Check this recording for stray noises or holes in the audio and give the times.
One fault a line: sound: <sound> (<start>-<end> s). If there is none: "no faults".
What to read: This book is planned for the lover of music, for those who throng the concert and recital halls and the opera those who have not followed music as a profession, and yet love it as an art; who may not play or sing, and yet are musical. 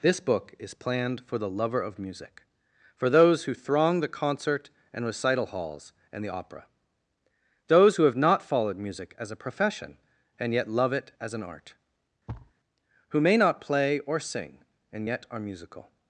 sound: thud (12.3-12.5 s)